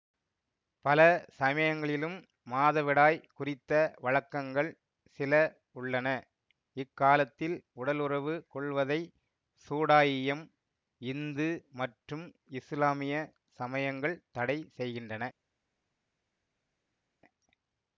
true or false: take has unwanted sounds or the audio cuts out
false